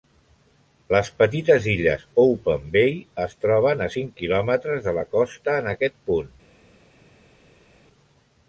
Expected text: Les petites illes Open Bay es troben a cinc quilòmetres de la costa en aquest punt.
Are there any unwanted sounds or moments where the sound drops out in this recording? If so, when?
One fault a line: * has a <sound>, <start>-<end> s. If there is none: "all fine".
all fine